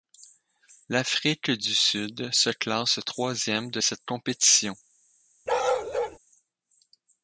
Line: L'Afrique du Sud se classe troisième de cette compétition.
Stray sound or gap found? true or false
true